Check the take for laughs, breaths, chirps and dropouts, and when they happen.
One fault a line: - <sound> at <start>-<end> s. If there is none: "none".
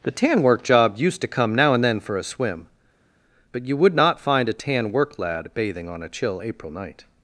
none